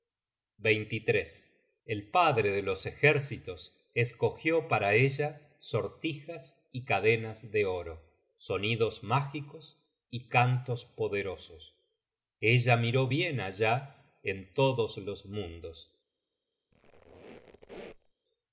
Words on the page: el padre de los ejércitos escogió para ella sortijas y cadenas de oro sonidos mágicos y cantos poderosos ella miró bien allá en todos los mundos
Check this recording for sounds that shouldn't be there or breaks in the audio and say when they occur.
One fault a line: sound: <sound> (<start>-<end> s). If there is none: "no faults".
sound: squeak (16.7-18.1 s)